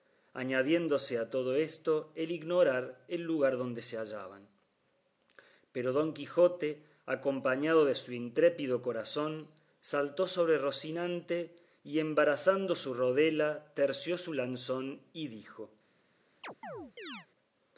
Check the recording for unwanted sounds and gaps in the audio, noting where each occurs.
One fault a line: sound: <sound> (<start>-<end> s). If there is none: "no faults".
sound: chirp (16.4-17.3 s)